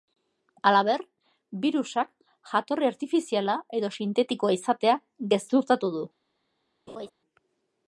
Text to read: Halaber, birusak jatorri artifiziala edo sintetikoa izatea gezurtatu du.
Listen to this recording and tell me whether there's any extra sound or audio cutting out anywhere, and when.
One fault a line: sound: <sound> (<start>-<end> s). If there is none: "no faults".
sound: laugh (6.9-7.1 s)